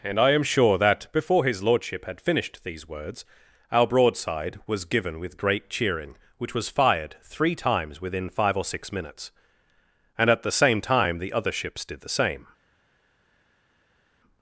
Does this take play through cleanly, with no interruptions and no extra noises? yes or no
yes